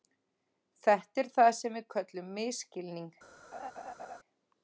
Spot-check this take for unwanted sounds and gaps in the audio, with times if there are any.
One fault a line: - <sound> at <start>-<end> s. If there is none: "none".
- laugh at 3.5-4.2 s